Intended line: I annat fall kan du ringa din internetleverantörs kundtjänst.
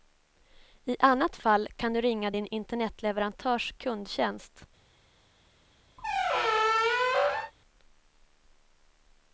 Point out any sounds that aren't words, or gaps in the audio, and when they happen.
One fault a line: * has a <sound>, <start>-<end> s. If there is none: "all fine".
* has a squeak, 6.0-7.5 s